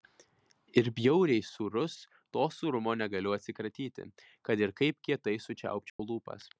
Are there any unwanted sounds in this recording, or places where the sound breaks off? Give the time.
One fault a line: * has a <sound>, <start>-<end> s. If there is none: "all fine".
* has a dropout, 5.9-6.0 s